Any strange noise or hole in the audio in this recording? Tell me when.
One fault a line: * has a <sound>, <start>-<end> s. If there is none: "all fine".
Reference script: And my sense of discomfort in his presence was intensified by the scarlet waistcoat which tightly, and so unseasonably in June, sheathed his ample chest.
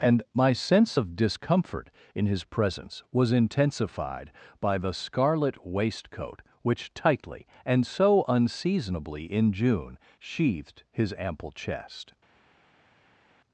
all fine